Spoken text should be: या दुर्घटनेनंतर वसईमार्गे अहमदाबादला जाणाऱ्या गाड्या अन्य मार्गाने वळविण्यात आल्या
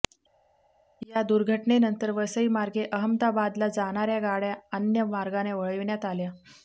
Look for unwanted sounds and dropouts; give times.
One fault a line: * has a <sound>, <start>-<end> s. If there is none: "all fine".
all fine